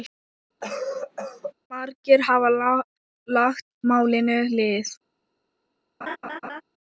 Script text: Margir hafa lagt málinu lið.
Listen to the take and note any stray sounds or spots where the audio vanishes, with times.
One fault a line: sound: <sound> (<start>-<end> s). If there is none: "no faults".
sound: cough (0.6-1.5 s)
sound: laugh (6.0-6.6 s)